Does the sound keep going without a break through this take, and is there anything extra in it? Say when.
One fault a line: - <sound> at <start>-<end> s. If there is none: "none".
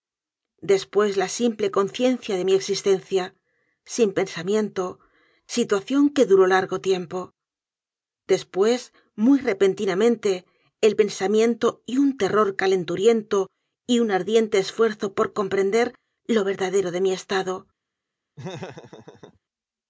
- laugh at 18.4-19.4 s